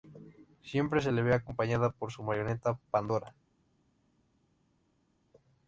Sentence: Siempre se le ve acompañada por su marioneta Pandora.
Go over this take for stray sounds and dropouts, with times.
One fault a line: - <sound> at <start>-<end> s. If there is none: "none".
none